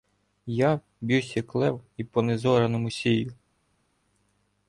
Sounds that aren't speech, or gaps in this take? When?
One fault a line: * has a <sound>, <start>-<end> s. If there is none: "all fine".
all fine